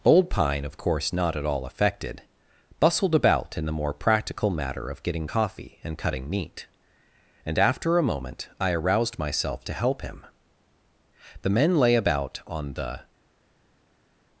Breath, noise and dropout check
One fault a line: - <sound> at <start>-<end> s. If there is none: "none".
none